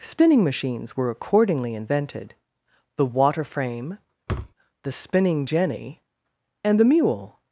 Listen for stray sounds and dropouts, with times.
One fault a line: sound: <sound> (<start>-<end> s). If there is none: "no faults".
sound: thud (4.3-4.5 s)